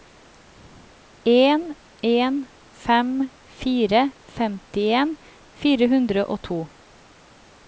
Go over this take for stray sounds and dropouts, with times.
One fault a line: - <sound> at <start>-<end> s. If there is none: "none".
none